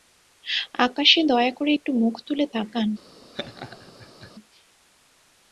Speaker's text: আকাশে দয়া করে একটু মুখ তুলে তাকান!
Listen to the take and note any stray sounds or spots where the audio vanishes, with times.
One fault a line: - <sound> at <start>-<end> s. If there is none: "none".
- laugh at 3.3-4.3 s